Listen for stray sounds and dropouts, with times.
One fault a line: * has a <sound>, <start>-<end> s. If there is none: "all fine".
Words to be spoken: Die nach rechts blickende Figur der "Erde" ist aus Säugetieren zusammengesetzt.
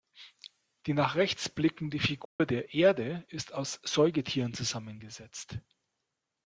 * has a dropout, 2.3-2.4 s